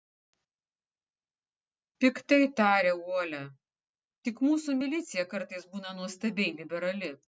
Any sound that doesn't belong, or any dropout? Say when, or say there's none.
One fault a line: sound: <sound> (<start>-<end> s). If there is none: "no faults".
no faults